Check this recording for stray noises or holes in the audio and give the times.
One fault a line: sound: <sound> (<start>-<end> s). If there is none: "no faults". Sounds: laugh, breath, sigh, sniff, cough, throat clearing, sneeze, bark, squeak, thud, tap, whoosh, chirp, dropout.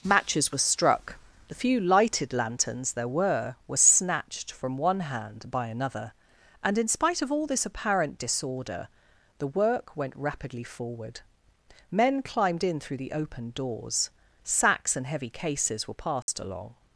sound: dropout (16.2-16.3 s)